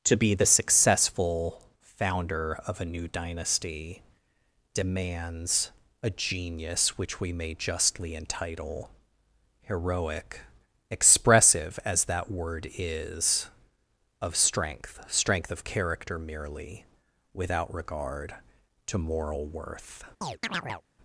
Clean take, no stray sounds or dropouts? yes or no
no